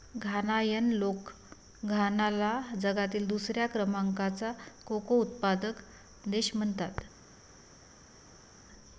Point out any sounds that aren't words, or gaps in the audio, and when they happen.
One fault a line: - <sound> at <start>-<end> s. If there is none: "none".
none